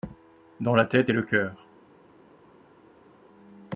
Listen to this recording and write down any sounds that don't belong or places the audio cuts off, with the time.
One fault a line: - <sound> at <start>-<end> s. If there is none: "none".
none